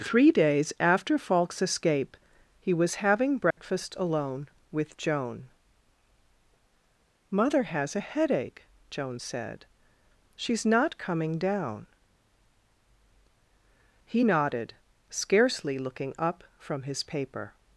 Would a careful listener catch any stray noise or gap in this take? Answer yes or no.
yes